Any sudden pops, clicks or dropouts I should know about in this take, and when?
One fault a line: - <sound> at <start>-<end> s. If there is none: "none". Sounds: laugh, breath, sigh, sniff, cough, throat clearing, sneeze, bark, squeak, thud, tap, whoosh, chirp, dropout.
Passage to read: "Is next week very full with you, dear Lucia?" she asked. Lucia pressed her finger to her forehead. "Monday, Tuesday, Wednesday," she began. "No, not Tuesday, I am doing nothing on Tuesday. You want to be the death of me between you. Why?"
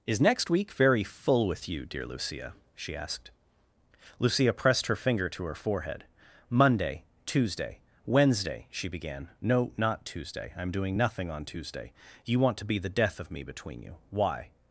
none